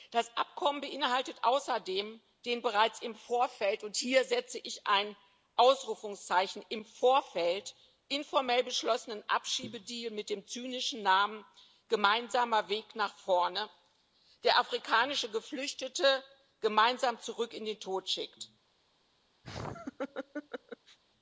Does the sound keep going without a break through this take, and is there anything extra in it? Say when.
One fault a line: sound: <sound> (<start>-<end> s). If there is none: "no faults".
sound: laugh (19.4-21.0 s)